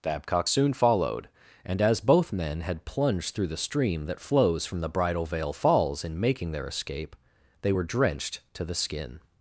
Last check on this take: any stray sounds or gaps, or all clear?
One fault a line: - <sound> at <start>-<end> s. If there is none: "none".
none